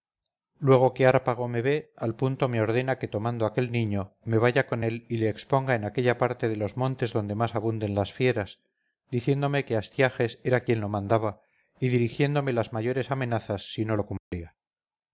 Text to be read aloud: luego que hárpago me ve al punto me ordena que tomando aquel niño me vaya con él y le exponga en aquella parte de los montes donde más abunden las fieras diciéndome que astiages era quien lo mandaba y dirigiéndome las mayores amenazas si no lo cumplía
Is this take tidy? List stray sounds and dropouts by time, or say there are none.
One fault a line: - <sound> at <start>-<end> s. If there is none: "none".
- dropout at 14.2-14.3 s